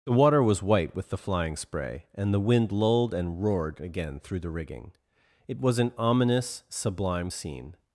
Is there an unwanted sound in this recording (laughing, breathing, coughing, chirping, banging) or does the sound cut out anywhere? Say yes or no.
no